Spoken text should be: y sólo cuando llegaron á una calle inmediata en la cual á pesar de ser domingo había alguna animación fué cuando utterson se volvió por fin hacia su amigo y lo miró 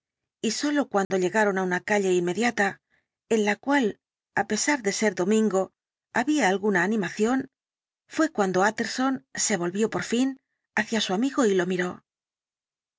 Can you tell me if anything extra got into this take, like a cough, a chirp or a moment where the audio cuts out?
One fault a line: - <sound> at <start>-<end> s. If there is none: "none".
- dropout at 1.0-1.1 s